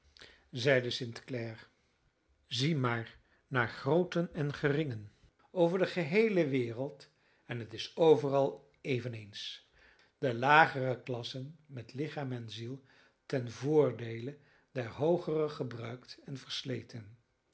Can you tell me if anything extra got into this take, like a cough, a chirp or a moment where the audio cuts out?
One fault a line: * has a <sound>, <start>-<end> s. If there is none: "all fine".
all fine